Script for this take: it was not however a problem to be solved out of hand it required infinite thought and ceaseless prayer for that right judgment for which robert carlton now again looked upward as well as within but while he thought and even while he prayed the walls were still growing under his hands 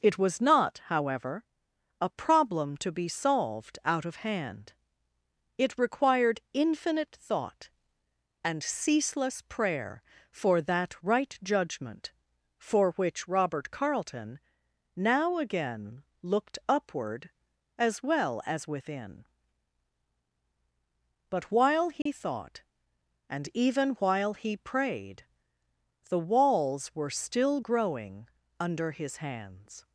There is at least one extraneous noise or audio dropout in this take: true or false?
true